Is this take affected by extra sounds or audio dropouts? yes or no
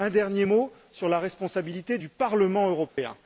yes